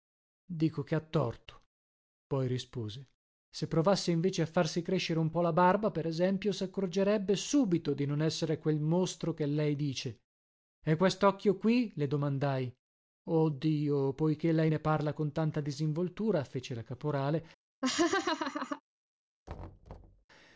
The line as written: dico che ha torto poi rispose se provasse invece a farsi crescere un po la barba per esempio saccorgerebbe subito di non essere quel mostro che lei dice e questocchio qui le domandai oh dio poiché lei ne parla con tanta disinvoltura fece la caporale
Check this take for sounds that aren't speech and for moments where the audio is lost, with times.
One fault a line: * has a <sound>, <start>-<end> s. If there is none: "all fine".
* has a laugh, 17.8-18.8 s
* has a thud, 19.5-20.2 s